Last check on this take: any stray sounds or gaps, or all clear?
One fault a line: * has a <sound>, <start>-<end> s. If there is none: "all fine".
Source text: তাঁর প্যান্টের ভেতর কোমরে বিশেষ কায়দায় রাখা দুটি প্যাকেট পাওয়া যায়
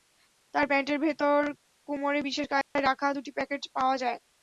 * has a dropout, 2.6-2.8 s